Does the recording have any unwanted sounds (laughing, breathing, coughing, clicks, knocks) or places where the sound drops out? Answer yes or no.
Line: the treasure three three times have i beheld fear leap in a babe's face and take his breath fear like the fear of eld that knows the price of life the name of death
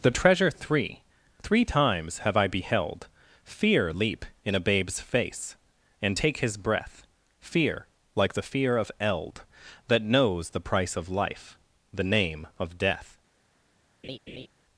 yes